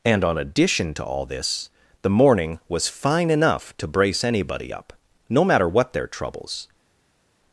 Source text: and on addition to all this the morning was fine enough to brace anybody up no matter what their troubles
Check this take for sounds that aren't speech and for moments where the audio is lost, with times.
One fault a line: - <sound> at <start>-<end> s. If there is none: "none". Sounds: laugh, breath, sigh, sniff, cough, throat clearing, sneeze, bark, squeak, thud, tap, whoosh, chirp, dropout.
none